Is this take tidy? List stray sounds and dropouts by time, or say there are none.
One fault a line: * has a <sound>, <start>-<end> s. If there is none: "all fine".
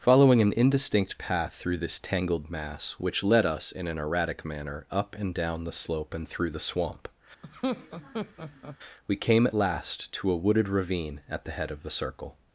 * has a laugh, 7.4-8.8 s